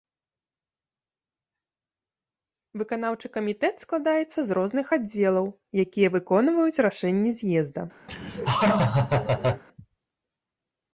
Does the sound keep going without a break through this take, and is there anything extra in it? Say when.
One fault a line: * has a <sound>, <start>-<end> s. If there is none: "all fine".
* has a laugh, 8.1-9.6 s